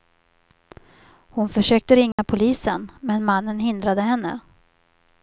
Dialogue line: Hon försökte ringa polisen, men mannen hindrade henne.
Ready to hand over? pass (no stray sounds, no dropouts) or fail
fail